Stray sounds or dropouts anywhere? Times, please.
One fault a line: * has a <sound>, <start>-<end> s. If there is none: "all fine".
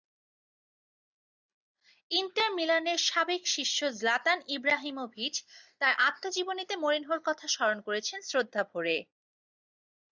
all fine